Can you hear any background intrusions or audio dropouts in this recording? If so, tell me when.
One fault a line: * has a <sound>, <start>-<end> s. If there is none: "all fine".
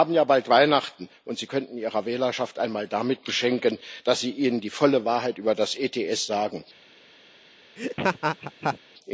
* has a laugh, 7.8-8.8 s